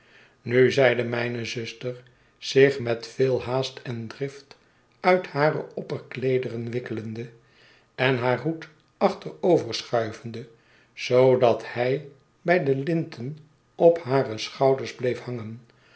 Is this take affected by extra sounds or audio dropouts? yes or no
no